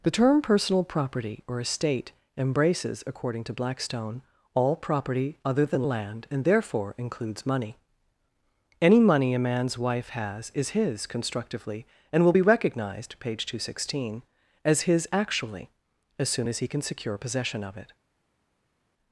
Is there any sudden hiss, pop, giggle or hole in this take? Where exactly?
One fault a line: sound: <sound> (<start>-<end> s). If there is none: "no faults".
no faults